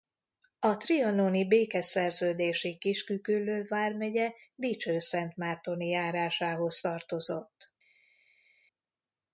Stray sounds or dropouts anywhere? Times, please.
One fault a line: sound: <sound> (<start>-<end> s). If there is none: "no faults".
no faults